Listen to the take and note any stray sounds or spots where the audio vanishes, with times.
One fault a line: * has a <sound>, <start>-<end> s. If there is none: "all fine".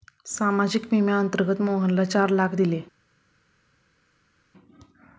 all fine